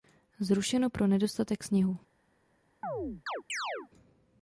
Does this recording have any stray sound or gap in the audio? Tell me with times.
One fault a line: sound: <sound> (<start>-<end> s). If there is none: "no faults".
sound: chirp (2.8-3.9 s)